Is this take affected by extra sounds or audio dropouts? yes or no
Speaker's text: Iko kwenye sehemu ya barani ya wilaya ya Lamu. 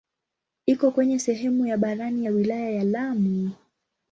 no